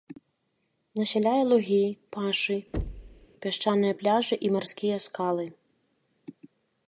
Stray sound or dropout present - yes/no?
yes